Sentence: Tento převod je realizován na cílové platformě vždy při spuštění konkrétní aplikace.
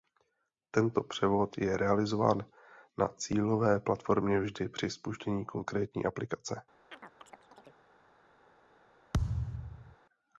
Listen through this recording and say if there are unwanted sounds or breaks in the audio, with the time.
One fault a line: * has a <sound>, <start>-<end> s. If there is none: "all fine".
* has a chirp, 6.9-7.8 s
* has a thud, 9.1-10.0 s